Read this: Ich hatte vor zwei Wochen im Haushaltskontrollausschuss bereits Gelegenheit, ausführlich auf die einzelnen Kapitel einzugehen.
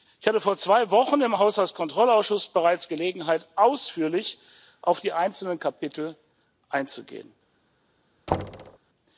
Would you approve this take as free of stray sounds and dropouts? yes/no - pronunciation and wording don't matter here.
no